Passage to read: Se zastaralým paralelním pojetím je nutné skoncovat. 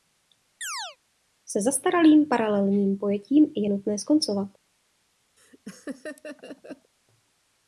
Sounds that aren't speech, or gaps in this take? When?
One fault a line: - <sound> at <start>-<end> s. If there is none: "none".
- chirp at 0.6-1.0 s
- laugh at 5.4-6.9 s